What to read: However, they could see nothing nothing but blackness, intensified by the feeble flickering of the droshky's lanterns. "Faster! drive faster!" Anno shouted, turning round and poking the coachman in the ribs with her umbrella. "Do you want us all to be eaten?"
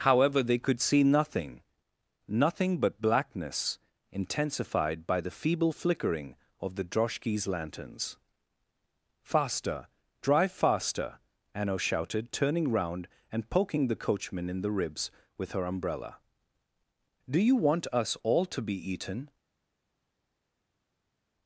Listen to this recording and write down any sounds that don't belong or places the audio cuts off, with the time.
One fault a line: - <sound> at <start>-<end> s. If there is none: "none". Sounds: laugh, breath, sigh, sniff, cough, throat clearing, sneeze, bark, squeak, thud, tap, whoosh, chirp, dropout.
none